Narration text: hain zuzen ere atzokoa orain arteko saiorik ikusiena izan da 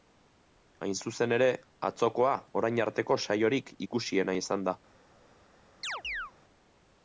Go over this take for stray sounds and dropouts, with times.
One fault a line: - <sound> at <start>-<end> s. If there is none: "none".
- chirp at 5.8-6.3 s